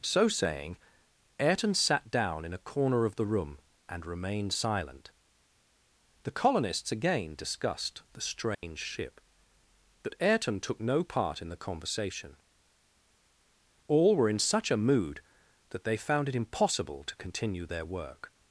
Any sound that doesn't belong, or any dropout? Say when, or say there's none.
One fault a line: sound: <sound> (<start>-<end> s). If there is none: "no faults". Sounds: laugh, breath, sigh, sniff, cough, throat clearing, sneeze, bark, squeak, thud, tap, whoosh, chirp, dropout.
sound: dropout (8.5-8.6 s)